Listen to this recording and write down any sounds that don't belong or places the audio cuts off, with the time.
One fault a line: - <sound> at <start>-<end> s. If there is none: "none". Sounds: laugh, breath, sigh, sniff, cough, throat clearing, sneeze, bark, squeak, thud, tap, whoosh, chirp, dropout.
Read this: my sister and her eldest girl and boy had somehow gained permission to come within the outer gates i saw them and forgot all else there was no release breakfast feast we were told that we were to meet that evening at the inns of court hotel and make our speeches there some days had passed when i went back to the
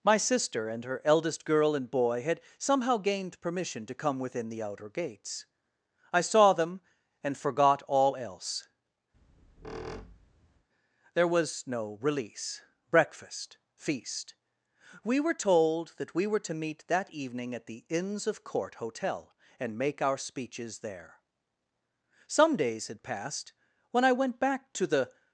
- squeak at 9.1-10.7 s